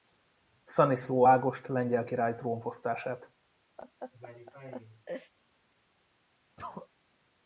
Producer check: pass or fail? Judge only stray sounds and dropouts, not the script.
fail